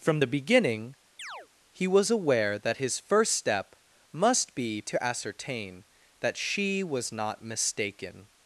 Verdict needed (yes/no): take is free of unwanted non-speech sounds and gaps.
no